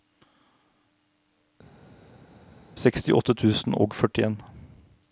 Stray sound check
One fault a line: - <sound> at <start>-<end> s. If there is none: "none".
none